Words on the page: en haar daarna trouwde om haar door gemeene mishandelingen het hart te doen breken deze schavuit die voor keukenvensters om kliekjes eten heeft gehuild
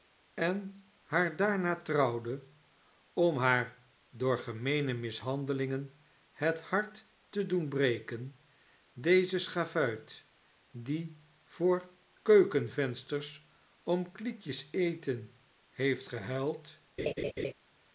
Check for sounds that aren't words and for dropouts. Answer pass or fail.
fail